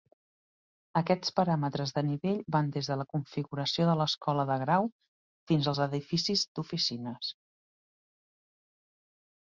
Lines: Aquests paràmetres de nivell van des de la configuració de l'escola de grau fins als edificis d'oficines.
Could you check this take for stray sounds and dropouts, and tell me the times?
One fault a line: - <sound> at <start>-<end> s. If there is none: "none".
none